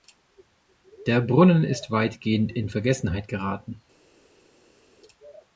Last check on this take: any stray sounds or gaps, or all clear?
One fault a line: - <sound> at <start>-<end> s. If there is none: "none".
none